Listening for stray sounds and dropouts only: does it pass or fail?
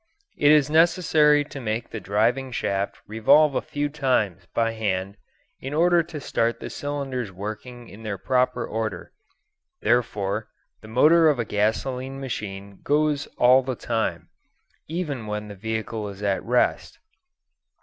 pass